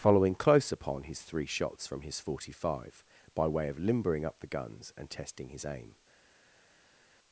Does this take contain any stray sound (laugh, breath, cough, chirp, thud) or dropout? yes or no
no